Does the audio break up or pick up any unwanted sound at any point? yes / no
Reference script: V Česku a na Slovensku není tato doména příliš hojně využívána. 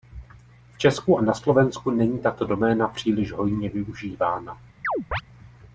yes